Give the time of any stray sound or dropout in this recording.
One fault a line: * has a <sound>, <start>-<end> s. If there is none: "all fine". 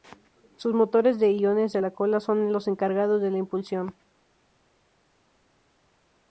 all fine